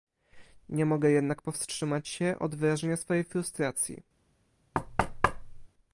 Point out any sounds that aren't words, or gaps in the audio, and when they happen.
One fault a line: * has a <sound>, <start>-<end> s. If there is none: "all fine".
* has a thud, 4.7-5.7 s